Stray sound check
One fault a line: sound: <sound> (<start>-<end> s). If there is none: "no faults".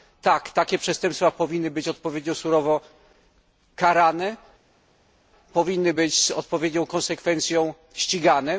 no faults